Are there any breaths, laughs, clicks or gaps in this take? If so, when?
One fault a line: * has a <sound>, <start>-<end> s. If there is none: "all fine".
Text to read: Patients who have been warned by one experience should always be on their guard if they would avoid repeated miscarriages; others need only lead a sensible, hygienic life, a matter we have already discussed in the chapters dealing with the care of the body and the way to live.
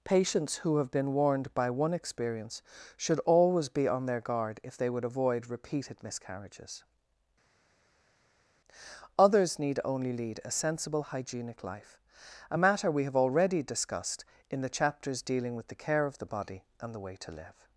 all fine